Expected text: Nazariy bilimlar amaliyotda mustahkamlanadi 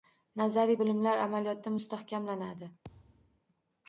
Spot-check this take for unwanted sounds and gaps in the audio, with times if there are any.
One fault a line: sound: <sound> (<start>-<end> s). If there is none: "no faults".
sound: thud (2.8-3.4 s)